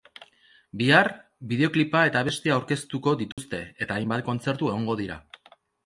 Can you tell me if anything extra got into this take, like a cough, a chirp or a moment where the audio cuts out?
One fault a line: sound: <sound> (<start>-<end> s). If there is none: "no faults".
sound: dropout (3.3-3.4 s)